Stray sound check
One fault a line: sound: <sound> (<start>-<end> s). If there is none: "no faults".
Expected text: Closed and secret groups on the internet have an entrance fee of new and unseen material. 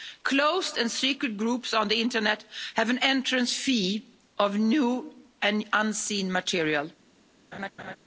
sound: laugh (7.5-8.0 s)